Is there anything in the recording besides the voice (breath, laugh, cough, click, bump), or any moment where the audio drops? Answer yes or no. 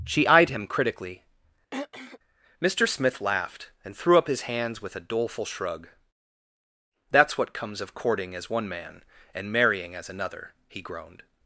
yes